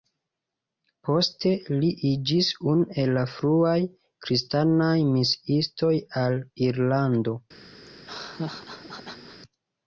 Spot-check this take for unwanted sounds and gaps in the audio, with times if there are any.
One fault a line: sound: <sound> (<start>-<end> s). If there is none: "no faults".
sound: laugh (7.9-9.4 s)